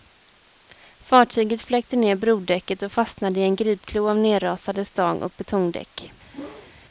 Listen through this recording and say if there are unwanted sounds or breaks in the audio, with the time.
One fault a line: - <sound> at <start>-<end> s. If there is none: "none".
- whoosh at 6.3-6.7 s